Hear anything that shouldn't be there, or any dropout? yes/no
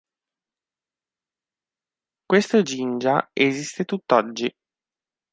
no